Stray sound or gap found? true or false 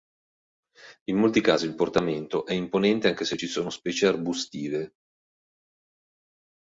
false